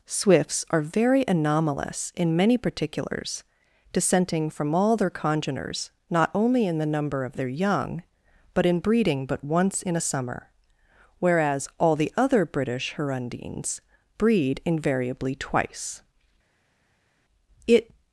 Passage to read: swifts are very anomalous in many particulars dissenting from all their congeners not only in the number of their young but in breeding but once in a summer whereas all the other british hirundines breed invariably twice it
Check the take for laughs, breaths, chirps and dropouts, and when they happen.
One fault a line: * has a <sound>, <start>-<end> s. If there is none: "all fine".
all fine